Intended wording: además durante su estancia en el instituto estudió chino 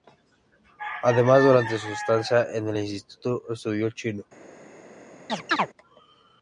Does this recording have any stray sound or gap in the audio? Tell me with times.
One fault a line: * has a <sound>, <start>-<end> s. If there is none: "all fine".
* has a chirp, 5.3-5.7 s